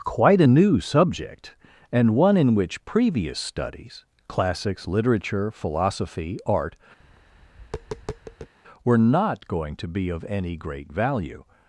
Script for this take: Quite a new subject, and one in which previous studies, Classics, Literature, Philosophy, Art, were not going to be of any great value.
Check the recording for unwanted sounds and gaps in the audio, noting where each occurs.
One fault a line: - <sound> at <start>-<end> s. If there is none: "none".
- tap at 7.0-8.5 s